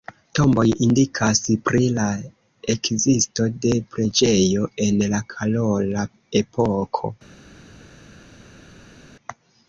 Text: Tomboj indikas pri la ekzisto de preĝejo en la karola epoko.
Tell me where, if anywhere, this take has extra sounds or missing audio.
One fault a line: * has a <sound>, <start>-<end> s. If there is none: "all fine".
all fine